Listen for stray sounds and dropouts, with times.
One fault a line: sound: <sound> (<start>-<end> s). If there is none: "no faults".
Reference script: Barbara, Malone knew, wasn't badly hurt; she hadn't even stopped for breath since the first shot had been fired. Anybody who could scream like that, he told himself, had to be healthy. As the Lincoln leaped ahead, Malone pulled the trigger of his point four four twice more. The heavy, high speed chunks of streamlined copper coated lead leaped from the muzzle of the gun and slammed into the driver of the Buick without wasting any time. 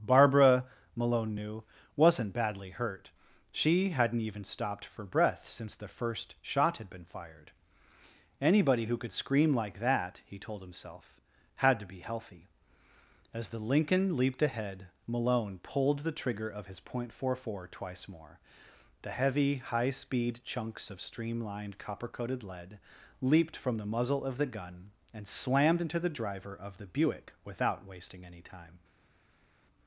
no faults